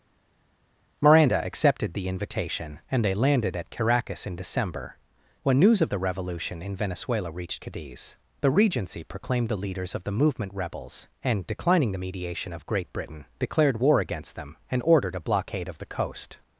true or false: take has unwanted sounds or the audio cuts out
false